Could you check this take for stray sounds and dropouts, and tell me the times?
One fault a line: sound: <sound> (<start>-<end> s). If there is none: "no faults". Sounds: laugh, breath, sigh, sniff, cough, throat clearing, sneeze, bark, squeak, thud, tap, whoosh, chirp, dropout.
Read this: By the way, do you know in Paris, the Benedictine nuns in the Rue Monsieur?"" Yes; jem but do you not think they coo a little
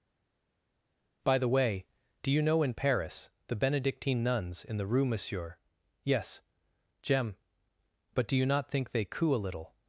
no faults